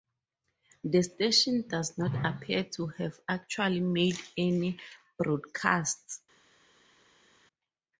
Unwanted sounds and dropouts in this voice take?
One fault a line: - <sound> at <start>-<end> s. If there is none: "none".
none